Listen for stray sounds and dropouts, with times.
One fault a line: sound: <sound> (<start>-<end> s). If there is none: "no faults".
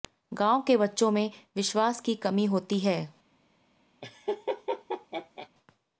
sound: laugh (4.0-5.5 s)